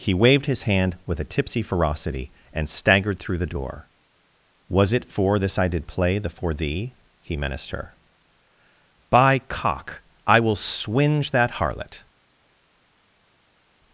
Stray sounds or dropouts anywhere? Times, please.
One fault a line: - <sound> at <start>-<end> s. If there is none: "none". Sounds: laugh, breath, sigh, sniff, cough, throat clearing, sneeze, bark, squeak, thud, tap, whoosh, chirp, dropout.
none